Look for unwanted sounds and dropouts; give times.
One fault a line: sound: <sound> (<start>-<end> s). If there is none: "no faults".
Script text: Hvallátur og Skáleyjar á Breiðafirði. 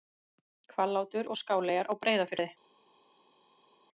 no faults